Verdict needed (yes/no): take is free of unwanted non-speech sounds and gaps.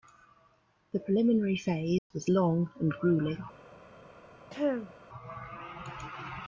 no